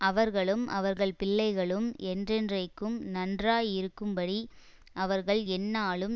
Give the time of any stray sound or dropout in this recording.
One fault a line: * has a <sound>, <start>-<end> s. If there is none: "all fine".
all fine